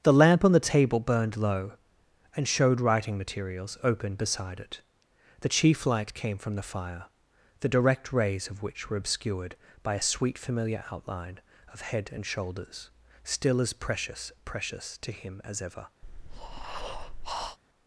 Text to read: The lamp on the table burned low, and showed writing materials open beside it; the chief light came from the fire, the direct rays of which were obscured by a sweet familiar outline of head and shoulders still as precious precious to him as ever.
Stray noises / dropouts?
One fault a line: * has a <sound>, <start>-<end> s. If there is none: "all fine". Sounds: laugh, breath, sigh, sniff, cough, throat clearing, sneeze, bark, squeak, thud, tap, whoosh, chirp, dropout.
* has a breath, 16.0-17.6 s